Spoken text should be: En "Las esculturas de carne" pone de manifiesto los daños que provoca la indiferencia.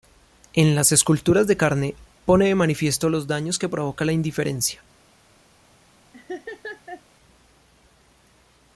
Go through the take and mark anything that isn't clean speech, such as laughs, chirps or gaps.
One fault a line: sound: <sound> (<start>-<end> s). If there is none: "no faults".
sound: laugh (6.1-7.0 s)